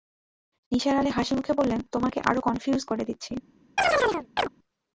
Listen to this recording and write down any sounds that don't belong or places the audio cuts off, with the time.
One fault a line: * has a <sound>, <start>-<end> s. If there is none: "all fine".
* has a chirp, 3.8-4.5 s